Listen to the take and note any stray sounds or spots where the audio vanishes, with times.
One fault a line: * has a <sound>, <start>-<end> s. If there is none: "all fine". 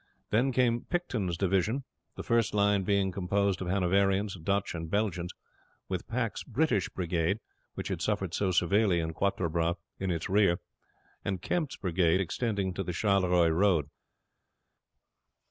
all fine